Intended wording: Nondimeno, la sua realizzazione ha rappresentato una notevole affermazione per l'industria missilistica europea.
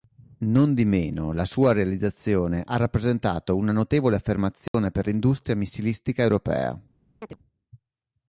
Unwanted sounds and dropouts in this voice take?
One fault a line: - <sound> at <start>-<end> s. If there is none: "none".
- dropout at 4.7-4.7 s
- chirp at 7.2-7.4 s